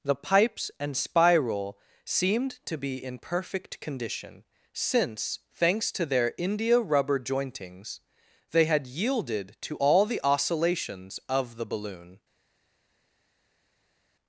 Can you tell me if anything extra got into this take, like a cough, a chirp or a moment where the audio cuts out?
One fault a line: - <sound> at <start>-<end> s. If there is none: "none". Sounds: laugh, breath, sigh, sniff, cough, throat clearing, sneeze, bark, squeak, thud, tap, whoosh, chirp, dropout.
none